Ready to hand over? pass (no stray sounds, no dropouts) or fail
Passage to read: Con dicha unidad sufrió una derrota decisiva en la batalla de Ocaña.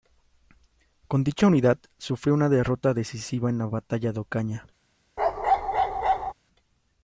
fail